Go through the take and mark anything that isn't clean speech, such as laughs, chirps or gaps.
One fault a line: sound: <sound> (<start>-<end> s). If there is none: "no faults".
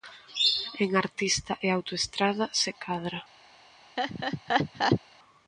sound: laugh (4.0-5.0 s)